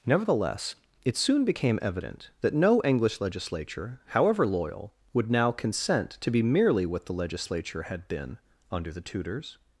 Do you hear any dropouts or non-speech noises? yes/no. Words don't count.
no